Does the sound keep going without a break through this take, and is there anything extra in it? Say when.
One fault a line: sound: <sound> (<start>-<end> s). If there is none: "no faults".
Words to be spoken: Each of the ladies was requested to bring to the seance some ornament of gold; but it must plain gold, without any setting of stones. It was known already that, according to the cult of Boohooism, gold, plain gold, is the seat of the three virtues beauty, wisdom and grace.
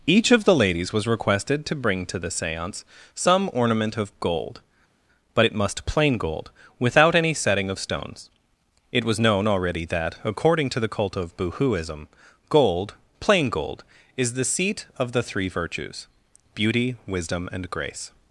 no faults